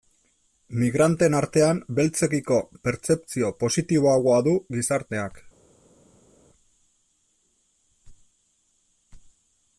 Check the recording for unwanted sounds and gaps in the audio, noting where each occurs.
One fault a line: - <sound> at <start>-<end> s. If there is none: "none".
none